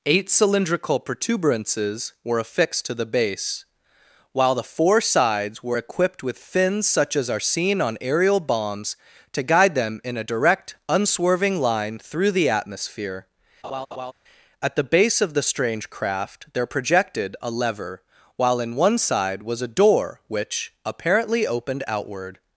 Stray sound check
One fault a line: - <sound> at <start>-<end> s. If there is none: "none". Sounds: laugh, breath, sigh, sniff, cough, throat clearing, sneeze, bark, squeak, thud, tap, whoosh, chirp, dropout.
- laugh at 13.6-14.1 s